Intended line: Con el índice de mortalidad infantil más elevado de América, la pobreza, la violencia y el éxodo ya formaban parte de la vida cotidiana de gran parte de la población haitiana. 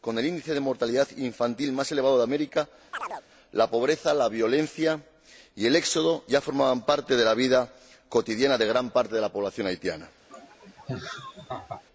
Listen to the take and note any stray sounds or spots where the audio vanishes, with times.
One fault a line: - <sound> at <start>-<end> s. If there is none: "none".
- chirp at 2.9-3.2 s
- laugh at 10.3-11.8 s